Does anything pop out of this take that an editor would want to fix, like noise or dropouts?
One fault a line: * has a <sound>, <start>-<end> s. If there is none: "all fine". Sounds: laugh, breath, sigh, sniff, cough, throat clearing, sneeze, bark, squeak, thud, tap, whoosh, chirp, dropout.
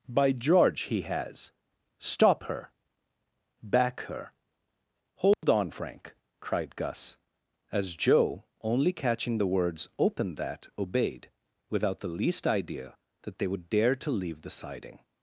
* has a dropout, 5.3-5.4 s